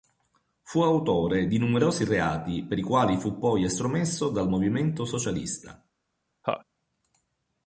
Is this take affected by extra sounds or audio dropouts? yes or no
yes